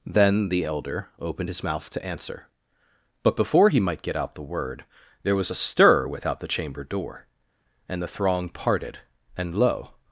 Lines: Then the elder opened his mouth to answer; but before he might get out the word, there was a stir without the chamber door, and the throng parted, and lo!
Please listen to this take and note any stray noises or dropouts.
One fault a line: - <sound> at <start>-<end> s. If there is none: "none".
none